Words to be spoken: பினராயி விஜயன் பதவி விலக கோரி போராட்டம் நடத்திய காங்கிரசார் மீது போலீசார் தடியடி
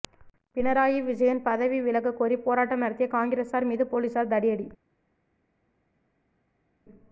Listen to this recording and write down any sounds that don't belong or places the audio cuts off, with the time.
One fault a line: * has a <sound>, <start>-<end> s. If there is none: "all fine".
all fine